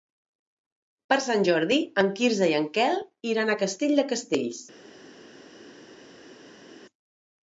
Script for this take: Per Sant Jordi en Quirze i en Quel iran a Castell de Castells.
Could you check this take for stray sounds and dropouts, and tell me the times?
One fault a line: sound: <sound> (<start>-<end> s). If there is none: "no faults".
no faults